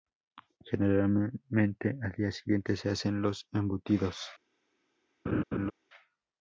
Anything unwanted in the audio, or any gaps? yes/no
yes